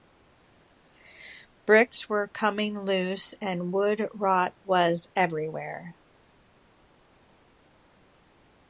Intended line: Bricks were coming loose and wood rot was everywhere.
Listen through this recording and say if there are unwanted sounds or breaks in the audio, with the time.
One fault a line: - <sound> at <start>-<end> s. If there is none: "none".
none